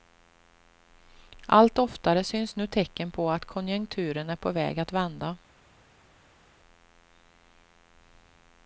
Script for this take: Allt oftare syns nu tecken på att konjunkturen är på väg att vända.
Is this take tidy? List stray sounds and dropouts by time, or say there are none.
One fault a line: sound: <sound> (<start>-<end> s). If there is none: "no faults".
no faults